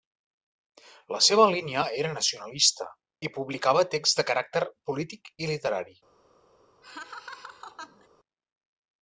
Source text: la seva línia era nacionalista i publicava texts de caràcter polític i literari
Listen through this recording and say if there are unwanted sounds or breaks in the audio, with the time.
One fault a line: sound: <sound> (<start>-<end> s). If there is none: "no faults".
sound: laugh (6.8-8.1 s)